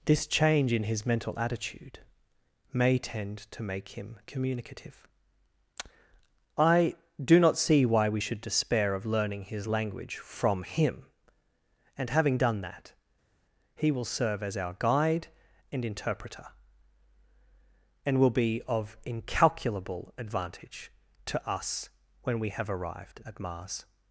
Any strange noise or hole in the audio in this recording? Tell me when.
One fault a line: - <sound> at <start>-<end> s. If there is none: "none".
none